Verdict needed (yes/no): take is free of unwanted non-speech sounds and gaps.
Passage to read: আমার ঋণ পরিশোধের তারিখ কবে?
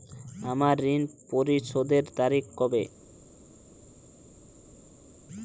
yes